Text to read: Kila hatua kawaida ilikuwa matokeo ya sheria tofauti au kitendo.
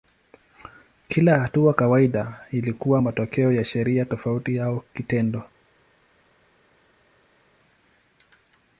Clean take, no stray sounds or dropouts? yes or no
yes